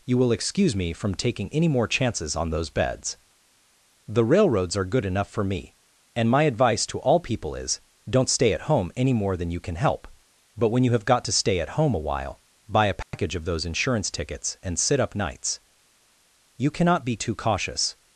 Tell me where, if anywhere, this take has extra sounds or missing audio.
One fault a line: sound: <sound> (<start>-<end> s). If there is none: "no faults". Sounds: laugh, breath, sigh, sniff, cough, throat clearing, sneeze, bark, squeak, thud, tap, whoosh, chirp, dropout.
sound: dropout (13.0-13.1 s)